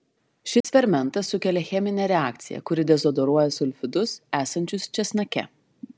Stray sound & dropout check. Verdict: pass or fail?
fail